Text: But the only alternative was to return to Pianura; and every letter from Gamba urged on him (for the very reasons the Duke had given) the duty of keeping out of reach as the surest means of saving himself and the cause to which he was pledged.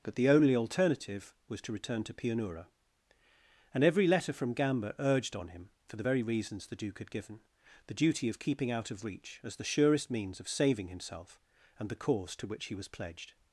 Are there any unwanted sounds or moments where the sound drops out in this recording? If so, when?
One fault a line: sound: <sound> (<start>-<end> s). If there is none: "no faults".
no faults